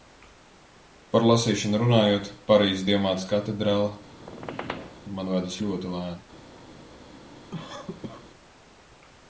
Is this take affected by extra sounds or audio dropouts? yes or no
yes